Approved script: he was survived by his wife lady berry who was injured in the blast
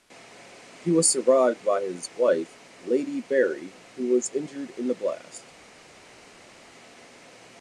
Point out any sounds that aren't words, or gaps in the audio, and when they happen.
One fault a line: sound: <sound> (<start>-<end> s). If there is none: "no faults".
no faults